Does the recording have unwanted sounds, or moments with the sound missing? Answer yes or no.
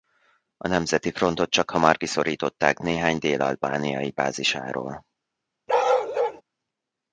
yes